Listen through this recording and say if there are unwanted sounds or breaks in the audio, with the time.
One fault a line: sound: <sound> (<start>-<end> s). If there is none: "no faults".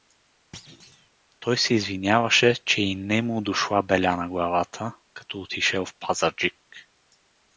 sound: thud (0.5-1.1 s)